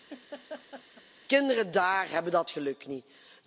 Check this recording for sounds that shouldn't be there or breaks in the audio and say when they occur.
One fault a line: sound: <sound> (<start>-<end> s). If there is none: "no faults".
sound: laugh (0.1-1.0 s)